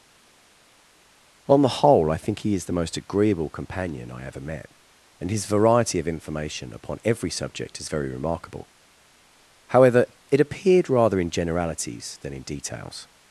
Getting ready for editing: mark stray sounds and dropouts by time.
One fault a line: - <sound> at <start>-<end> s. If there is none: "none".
none